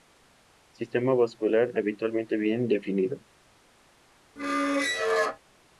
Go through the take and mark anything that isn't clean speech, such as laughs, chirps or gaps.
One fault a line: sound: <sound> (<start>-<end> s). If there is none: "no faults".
sound: squeak (4.4-5.4 s)